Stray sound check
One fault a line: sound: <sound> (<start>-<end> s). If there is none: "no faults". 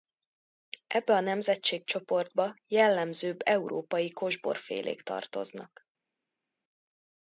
no faults